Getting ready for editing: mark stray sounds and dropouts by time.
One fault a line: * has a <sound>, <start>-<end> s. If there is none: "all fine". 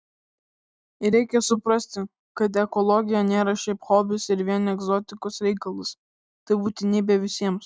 all fine